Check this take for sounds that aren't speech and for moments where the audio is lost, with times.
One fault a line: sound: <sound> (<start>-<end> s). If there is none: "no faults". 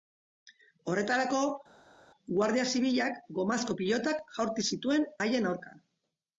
no faults